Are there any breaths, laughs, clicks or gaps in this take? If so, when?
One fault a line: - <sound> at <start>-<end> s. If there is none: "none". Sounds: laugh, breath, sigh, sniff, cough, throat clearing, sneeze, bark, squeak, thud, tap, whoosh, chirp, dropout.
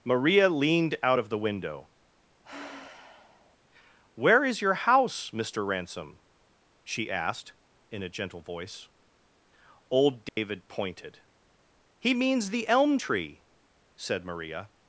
- sigh at 2.4-3.6 s
- dropout at 10.3-10.4 s